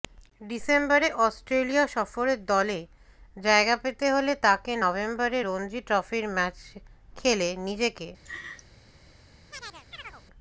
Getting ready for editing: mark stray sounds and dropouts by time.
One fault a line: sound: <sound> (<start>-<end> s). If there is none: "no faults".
sound: laugh (8.2-8.7 s)
sound: chirp (9.5-10.2 s)